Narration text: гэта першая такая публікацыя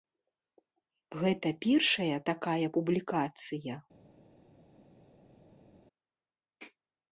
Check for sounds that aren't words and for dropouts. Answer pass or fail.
pass